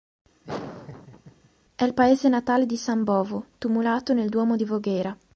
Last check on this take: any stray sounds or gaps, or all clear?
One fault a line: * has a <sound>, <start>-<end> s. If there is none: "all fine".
* has a laugh, 0.4-1.5 s